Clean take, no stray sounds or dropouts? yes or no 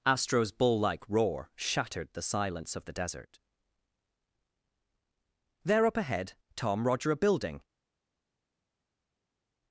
yes